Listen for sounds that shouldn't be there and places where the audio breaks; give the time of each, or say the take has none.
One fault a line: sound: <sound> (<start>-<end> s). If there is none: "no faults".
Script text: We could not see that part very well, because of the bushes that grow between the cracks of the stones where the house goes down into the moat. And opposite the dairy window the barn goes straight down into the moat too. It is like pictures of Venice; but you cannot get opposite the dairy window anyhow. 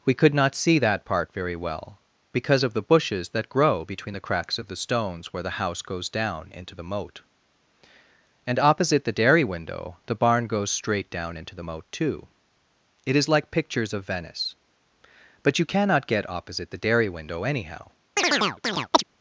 sound: chirp (18.2-19.0 s)